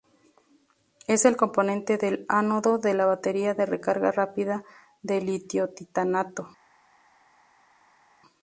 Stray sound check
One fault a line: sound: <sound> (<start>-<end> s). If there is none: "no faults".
no faults